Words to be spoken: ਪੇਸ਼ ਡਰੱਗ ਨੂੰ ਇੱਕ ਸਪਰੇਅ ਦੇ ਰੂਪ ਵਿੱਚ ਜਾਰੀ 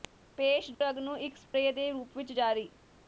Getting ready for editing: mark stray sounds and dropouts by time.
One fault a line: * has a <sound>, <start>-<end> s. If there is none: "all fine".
* has a dropout, 0.7-0.8 s
* has a dropout, 1.5-1.5 s